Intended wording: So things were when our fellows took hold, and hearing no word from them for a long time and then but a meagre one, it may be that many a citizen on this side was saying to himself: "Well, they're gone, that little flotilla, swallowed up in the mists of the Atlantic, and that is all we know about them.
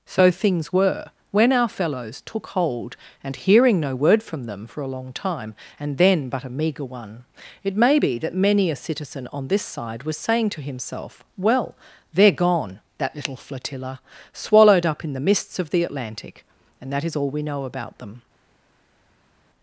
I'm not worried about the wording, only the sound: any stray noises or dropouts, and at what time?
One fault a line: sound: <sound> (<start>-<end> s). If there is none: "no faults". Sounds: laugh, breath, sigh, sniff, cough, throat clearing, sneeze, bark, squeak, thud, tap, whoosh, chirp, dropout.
no faults